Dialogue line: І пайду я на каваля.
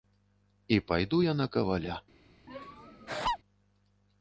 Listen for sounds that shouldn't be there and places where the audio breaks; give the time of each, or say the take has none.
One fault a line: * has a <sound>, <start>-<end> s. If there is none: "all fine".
* has a laugh, 2.5-3.4 s